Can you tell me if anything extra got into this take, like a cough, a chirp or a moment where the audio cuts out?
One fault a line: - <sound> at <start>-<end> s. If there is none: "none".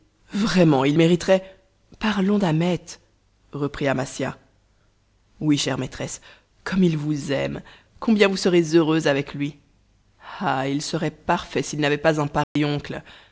- dropout at 12.4-12.6 s